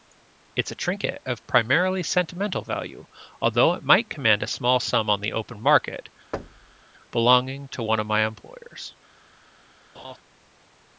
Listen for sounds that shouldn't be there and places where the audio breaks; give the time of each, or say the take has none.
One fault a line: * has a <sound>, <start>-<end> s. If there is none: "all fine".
* has a thud, 6.3-6.8 s
* has a laugh, 9.9-10.2 s